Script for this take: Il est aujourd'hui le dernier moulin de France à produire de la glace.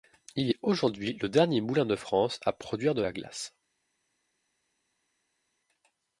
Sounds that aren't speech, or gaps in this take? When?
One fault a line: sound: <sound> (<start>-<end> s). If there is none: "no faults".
no faults